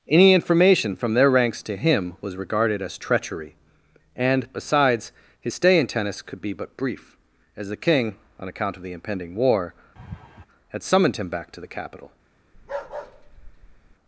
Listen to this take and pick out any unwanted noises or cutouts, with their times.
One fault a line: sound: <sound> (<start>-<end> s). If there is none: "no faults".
sound: laugh (10.0-10.5 s)
sound: bark (12.5-14.0 s)